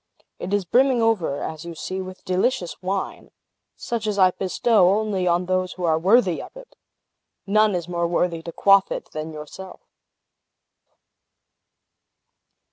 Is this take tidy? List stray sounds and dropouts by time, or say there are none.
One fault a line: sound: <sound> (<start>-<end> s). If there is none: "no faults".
no faults